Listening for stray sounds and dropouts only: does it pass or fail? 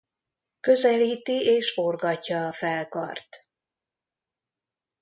pass